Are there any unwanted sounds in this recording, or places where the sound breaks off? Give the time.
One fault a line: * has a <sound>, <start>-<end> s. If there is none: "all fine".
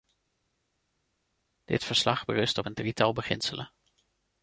all fine